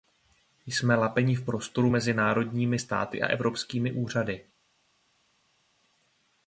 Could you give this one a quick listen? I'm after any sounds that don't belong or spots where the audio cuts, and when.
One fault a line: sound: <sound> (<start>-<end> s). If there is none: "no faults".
no faults